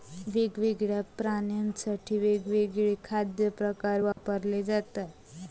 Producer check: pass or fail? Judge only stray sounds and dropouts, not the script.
fail